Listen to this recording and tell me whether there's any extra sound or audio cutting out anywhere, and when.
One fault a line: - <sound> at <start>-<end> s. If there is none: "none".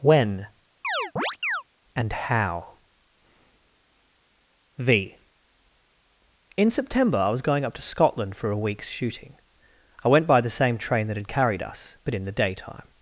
- chirp at 0.8-1.6 s